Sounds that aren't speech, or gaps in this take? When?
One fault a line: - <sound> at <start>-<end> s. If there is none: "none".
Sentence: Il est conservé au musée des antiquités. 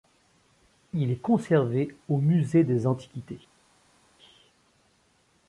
none